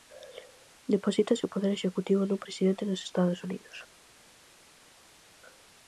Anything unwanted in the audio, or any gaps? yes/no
no